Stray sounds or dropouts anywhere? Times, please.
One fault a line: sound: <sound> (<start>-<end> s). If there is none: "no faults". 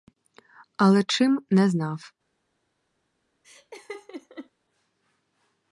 sound: laugh (3.4-4.5 s)